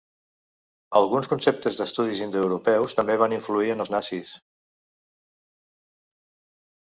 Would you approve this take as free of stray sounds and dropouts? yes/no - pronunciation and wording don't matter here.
yes